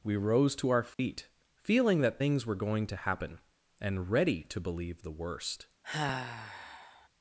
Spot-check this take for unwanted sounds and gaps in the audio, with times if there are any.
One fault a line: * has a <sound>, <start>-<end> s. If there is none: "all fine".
* has a dropout, 0.9-1.0 s
* has a sigh, 5.8-7.1 s